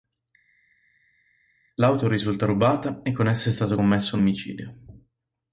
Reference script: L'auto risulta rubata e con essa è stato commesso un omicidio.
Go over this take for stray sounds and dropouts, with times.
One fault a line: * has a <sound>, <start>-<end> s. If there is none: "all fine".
all fine